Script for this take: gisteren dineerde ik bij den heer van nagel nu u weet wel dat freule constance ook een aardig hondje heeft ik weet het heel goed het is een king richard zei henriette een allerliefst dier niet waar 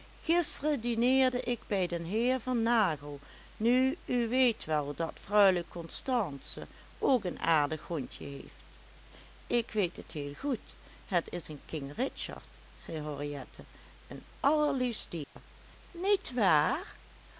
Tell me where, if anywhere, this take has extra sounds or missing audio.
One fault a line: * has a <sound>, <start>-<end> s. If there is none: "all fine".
* has a dropout, 15.2-15.4 s